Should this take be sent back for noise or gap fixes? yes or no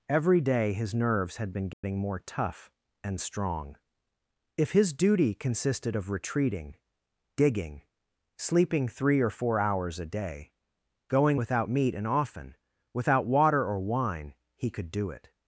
yes